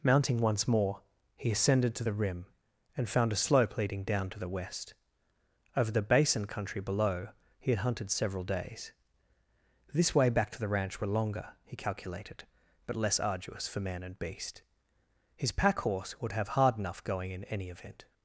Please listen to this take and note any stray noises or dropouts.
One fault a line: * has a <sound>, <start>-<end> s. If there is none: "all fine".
all fine